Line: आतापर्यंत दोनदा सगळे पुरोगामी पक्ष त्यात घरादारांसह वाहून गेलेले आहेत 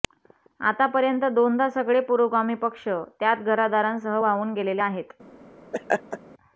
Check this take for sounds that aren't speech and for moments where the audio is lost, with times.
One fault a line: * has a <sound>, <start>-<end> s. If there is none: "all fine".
* has a laugh, 5.7-6.2 s